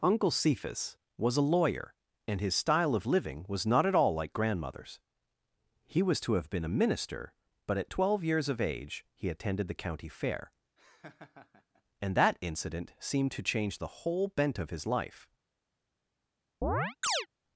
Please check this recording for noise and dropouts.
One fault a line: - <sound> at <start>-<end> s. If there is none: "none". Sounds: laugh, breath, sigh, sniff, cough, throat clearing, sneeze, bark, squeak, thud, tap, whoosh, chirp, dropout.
- laugh at 10.8-11.8 s
- chirp at 16.6-17.3 s